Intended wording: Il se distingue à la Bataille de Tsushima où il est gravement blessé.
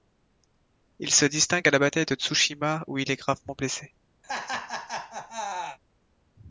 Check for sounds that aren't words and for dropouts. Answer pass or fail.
fail